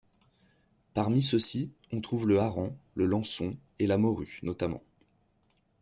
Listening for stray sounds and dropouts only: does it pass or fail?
pass